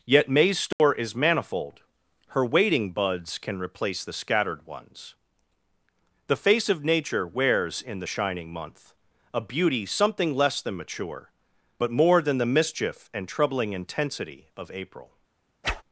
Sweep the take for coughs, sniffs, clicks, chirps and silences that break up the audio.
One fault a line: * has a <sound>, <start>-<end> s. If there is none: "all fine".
* has a dropout, 0.7-0.8 s
* has a whoosh, 15.6-15.8 s